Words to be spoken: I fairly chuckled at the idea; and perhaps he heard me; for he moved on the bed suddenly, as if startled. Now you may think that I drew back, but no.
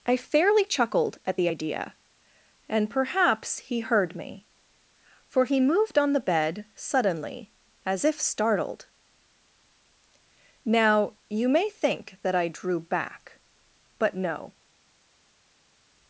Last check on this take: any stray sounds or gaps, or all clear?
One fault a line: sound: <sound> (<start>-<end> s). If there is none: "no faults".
no faults